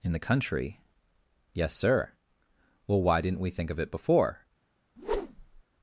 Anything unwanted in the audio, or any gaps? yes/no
yes